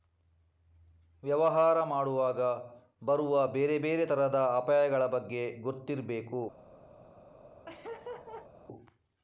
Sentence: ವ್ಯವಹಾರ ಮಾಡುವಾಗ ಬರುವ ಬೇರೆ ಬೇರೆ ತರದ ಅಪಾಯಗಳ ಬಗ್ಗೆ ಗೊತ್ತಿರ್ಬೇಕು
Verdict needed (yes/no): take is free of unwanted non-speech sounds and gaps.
no